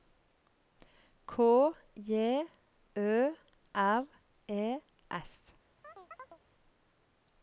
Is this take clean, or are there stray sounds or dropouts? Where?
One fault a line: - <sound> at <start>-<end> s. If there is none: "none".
- chirp at 5.8-6.4 s